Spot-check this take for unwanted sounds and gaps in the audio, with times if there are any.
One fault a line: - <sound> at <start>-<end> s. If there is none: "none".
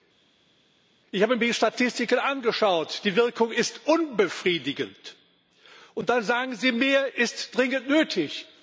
none